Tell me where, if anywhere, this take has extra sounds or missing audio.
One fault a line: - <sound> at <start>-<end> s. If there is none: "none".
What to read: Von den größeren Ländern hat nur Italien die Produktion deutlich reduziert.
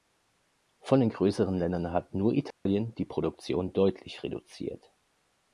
- dropout at 2.5-2.7 s